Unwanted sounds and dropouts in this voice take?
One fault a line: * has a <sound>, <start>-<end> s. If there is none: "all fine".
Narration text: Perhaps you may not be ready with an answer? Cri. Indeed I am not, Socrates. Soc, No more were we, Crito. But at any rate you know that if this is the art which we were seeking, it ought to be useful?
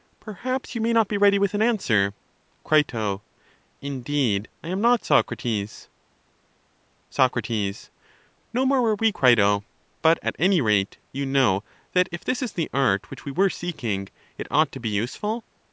all fine